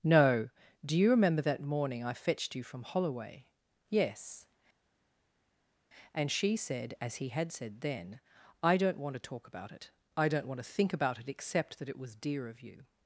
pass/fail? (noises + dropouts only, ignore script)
pass